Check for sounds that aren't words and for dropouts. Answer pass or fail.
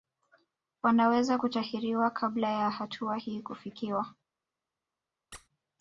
fail